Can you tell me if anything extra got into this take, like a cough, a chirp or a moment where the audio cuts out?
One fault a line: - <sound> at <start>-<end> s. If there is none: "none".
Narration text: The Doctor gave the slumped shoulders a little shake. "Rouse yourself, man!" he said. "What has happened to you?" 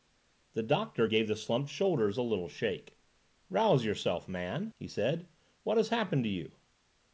none